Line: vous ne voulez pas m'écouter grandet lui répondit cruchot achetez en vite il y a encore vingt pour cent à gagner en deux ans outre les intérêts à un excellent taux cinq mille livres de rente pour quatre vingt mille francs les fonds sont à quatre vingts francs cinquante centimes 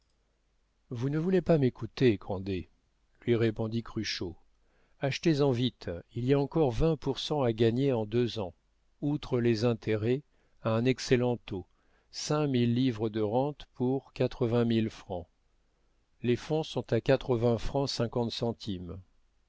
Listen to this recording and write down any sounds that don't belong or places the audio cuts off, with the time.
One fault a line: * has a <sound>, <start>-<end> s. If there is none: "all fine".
all fine